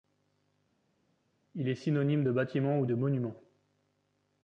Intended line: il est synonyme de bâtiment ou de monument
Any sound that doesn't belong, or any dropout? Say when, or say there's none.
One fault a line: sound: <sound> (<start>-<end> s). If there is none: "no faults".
no faults